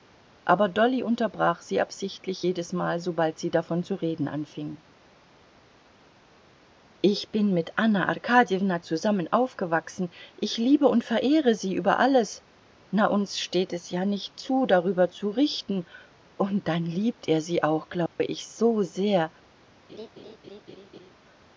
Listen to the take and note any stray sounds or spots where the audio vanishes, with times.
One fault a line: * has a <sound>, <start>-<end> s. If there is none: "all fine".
* has a dropout, 18.1-18.2 s
* has a laugh, 19.9-21.1 s